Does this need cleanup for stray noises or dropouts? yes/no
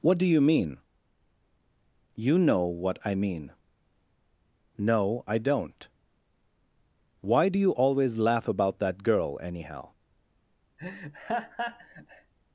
yes